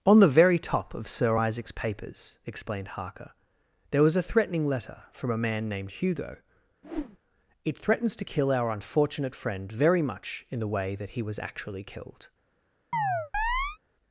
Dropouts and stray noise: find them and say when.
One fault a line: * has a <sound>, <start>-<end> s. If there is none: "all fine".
* has a whoosh, 6.8-7.2 s
* has a chirp, 12.9-13.8 s